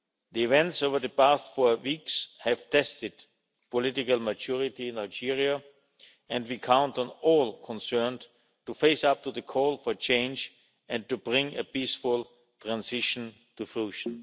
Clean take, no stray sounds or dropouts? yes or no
yes